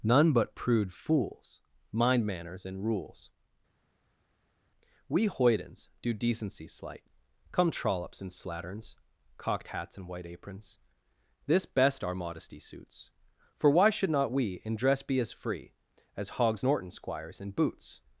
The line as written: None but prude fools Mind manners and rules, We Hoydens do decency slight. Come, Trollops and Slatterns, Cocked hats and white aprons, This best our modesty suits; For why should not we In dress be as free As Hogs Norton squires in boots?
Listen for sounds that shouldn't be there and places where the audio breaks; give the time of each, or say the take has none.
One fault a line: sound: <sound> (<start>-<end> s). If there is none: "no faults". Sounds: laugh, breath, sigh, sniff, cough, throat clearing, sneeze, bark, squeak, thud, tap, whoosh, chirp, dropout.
no faults